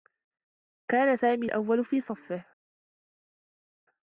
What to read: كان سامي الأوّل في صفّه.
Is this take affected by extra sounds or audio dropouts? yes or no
no